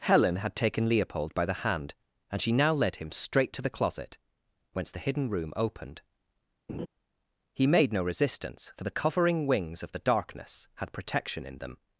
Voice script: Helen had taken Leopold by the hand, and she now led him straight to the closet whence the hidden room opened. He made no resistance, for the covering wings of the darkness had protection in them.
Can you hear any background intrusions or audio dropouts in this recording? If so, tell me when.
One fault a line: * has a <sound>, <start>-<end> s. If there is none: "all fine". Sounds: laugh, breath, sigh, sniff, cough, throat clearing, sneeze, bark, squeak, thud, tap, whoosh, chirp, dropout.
* has a laugh, 6.7-6.9 s